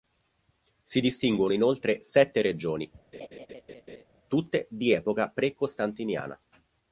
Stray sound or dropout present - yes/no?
yes